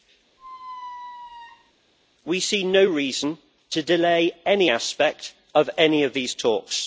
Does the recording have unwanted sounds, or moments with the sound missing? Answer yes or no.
yes